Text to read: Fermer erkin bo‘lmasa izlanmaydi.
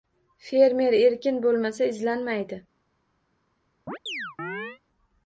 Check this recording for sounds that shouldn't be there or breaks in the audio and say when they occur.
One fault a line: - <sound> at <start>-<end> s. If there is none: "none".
- chirp at 3.9-4.8 s